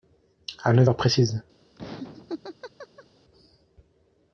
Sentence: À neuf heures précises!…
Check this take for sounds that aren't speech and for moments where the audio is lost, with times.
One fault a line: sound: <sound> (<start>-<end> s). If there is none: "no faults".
sound: laugh (1.8-3.1 s)